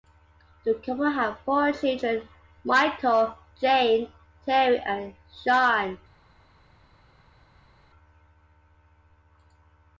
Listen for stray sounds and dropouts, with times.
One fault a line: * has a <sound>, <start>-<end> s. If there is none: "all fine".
all fine